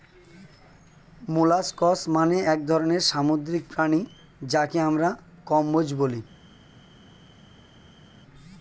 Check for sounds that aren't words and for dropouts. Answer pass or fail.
pass